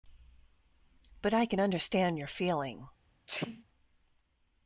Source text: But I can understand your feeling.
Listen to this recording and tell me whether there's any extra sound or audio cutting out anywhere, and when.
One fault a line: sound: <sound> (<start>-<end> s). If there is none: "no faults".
sound: sneeze (3.3-3.6 s)